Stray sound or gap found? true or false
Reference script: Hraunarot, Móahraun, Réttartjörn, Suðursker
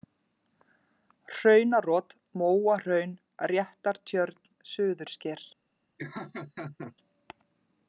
true